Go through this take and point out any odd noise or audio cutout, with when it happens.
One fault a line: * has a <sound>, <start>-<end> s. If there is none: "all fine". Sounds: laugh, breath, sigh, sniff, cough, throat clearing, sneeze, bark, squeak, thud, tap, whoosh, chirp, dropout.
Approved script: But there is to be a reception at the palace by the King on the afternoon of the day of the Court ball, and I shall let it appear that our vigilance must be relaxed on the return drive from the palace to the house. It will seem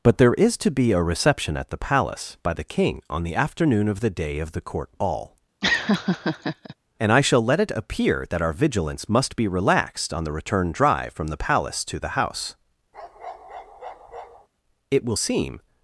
* has a laugh, 5.6-6.7 s
* has a bark, 12.9-14.5 s